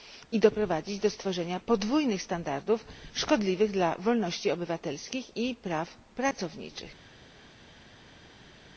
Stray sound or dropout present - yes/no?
no